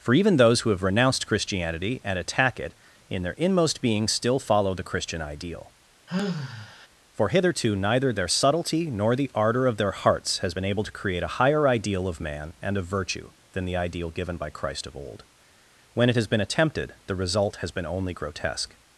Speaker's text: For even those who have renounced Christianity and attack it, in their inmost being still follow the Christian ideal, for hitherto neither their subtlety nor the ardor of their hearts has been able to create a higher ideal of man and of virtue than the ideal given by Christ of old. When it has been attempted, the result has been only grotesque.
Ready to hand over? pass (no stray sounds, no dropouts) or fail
fail